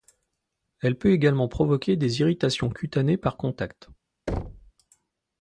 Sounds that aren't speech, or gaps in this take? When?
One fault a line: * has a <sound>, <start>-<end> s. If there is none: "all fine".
* has a thud, 4.3-4.7 s